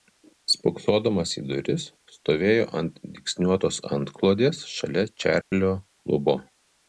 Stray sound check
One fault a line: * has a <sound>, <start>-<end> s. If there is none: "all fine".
* has a dropout, 5.4-5.5 s